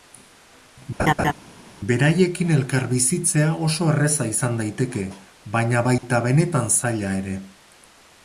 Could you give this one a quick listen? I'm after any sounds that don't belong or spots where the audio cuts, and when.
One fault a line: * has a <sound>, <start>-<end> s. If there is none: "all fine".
* has a laugh, 1.0-1.3 s
* has a dropout, 6.0-6.0 s